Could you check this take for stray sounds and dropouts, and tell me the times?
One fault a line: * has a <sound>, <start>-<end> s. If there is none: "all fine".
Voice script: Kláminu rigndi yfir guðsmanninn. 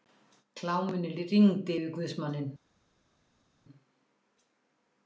all fine